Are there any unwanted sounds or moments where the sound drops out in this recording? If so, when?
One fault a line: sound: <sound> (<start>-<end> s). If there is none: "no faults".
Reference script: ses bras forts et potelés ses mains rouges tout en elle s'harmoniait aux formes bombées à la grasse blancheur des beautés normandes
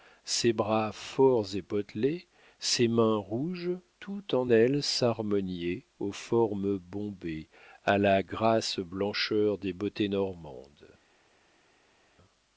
no faults